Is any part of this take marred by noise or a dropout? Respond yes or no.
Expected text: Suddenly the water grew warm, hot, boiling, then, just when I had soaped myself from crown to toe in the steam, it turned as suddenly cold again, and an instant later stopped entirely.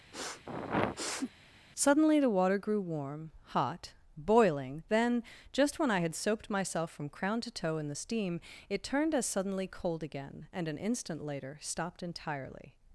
yes